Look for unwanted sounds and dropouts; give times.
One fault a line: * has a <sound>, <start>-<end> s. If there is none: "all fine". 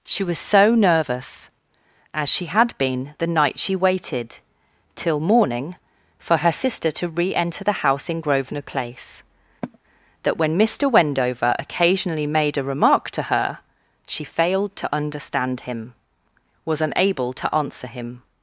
* has a sigh, 9.6-9.8 s